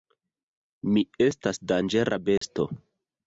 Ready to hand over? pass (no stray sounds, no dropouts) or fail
fail